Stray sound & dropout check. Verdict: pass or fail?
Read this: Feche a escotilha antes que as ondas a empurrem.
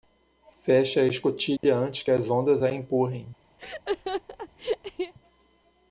fail